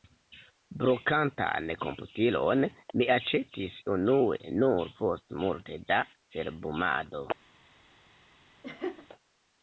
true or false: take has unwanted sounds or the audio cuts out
true